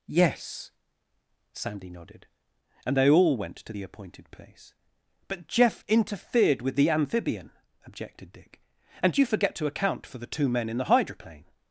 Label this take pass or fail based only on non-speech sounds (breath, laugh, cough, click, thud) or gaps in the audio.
pass